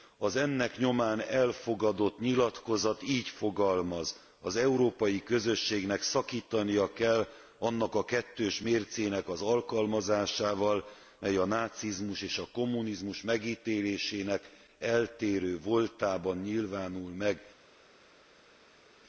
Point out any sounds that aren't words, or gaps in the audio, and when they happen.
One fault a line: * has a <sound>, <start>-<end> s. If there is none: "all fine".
all fine